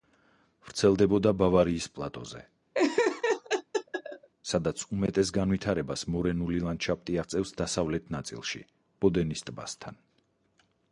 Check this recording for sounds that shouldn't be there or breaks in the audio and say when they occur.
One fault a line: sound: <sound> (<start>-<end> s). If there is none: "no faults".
sound: laugh (2.7-4.3 s)